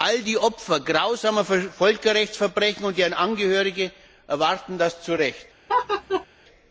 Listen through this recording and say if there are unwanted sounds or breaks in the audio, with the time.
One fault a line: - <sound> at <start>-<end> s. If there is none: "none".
- laugh at 5.7-6.3 s